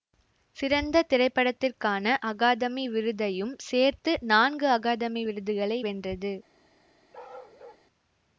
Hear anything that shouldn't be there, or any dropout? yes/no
yes